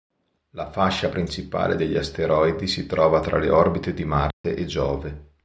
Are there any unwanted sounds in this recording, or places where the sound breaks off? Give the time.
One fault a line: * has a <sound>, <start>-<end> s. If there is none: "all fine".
* has a dropout, 4.3-4.4 s